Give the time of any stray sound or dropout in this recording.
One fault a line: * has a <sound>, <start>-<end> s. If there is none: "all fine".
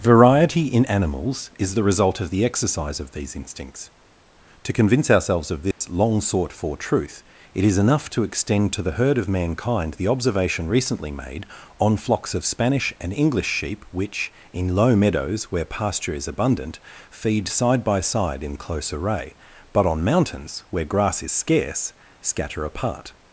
* has a dropout, 5.7-5.8 s